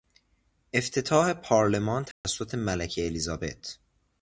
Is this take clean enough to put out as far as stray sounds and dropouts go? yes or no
no